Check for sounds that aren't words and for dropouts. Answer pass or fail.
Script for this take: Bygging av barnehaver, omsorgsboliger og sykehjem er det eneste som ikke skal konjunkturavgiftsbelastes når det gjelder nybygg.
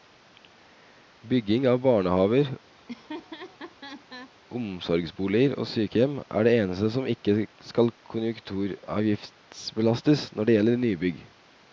fail